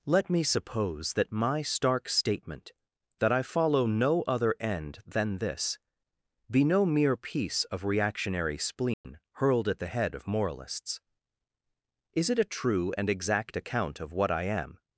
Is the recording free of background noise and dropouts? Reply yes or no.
no